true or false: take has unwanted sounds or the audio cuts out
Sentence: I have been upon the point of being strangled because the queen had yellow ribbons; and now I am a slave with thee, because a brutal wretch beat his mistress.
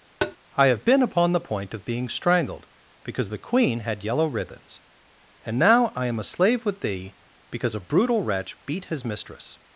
true